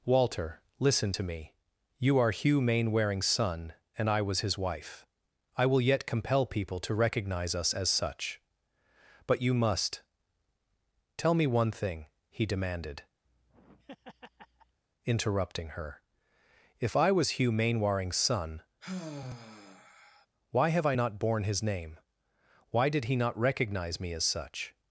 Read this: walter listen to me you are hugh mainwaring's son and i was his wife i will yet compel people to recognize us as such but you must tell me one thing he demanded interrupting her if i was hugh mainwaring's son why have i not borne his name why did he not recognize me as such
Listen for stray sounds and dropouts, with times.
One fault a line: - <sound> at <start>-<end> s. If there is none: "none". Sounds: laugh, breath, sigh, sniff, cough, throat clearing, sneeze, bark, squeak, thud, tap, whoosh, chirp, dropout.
- laugh at 13.2-14.8 s
- sigh at 18.8-20.3 s